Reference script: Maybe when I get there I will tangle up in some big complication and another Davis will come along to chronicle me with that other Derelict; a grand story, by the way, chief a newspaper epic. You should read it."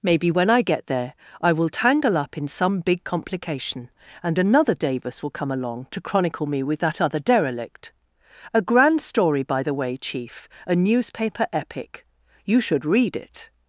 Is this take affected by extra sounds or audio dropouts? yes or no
no